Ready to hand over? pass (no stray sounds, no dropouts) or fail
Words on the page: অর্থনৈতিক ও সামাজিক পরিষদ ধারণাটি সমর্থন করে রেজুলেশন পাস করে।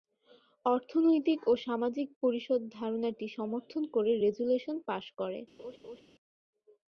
fail